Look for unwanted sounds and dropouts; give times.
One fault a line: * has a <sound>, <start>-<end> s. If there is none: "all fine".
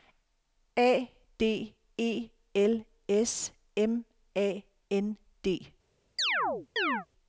* has a chirp, 6.2-7.1 s